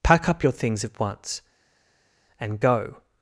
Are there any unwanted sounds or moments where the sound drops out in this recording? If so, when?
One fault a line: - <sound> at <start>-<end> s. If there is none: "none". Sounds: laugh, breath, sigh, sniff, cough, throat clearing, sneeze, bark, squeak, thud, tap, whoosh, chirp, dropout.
none